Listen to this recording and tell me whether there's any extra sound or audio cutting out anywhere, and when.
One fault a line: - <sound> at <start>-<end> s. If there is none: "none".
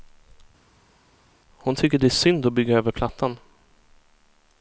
none